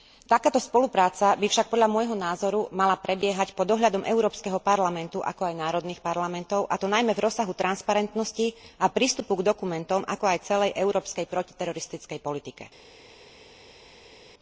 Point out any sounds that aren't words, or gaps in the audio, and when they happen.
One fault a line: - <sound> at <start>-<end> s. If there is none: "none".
none